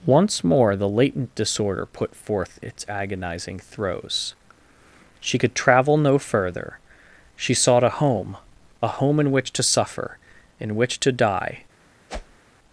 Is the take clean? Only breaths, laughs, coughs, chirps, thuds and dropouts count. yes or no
no